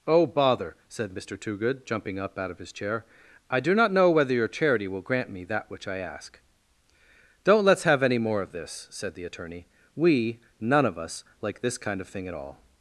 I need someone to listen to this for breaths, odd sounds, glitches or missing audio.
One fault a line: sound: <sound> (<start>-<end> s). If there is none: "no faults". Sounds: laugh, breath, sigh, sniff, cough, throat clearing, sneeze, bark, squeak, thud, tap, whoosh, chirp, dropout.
no faults